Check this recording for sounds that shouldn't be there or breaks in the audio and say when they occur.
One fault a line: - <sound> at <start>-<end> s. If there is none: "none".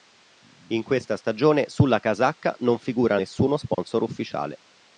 - dropout at 3.7-3.8 s